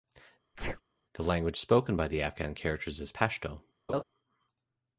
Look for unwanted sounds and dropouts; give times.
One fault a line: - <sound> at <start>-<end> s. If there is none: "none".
- sneeze at 0.5-0.8 s
- laugh at 3.9-4.0 s